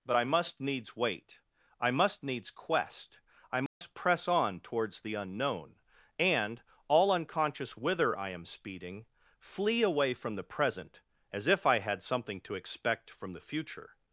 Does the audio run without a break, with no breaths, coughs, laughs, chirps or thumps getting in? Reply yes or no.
no